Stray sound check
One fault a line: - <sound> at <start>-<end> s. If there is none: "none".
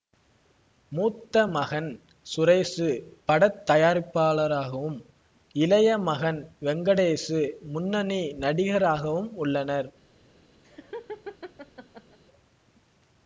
- laugh at 10.6-12.2 s